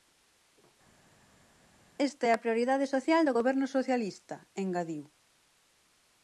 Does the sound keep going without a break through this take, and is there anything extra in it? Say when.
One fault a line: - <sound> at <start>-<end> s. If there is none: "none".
none